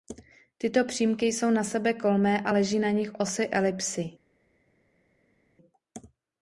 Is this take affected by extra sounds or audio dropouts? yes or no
no